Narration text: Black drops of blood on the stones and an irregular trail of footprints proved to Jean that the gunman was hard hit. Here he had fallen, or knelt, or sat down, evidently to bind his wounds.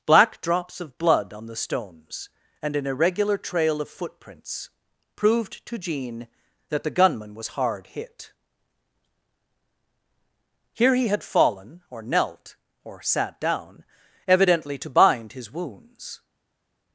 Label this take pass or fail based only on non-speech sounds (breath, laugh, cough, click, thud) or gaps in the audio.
pass